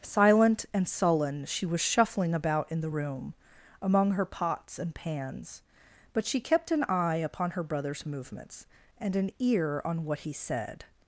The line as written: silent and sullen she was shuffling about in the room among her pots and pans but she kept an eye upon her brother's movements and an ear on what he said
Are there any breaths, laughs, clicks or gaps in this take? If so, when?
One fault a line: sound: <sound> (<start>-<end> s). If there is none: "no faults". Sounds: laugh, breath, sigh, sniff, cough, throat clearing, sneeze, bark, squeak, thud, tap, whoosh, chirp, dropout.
no faults